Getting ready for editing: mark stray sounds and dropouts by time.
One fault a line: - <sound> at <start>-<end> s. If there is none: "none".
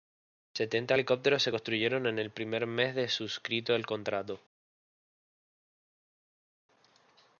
none